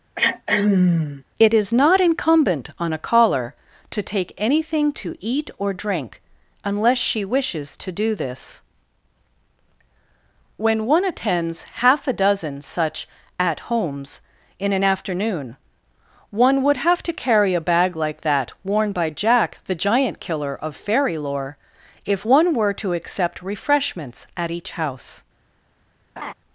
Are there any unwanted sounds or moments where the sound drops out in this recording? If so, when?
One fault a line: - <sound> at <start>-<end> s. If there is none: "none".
- throat clearing at 0.2-1.2 s
- laugh at 26.2-26.3 s